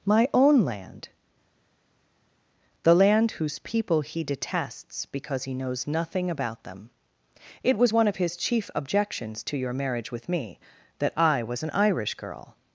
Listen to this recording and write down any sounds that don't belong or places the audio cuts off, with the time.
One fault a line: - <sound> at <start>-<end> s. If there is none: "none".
none